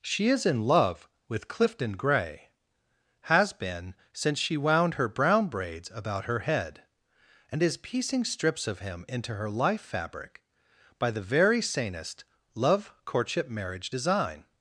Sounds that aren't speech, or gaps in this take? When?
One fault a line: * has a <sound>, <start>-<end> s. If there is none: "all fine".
all fine